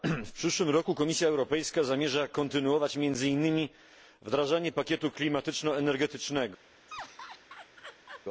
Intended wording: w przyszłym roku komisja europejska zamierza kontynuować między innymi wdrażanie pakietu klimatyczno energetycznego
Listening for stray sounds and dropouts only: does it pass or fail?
fail